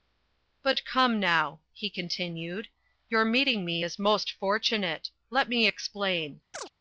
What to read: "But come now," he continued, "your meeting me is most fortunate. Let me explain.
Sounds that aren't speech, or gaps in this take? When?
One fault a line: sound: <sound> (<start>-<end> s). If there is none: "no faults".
sound: chirp (6.5-6.7 s)